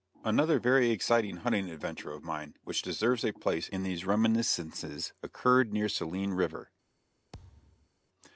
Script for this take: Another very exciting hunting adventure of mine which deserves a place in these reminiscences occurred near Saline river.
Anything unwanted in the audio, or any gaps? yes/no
yes